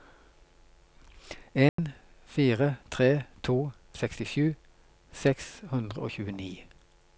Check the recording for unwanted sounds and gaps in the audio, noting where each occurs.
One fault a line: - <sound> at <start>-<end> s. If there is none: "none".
- dropout at 1.7-1.8 s